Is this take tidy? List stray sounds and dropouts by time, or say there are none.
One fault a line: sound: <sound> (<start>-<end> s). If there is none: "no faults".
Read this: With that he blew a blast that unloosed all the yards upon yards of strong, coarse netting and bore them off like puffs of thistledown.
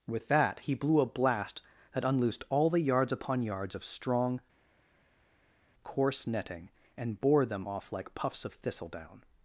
no faults